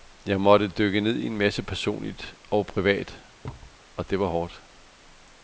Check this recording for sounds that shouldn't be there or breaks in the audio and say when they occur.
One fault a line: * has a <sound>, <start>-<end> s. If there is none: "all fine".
* has a thud, 3.4-3.8 s